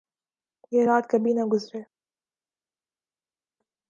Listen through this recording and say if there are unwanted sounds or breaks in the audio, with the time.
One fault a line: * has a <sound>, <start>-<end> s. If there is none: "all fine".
all fine